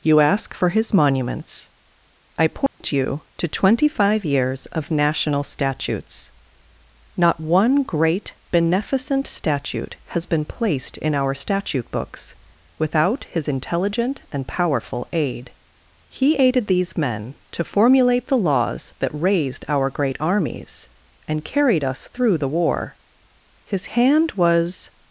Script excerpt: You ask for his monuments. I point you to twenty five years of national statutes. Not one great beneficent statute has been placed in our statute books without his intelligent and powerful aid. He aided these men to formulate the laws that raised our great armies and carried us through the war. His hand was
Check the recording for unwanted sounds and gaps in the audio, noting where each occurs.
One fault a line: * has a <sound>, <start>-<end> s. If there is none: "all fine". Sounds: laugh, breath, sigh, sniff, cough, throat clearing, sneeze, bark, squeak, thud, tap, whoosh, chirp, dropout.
* has a dropout, 2.7-2.8 s